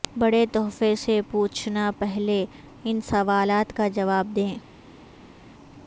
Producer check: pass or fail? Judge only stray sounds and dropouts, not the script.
pass